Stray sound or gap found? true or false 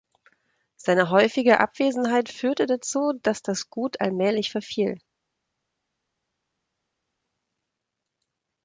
false